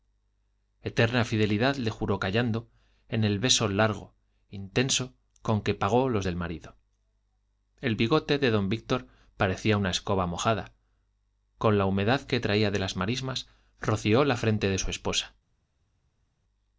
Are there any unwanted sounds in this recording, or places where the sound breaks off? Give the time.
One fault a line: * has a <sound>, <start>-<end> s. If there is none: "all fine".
all fine